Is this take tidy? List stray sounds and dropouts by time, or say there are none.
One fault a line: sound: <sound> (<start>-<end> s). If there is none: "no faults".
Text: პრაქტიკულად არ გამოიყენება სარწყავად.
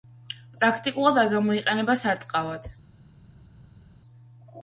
no faults